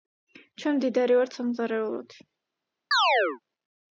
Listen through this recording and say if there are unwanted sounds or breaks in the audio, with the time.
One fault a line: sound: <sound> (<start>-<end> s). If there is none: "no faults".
sound: chirp (2.9-3.4 s)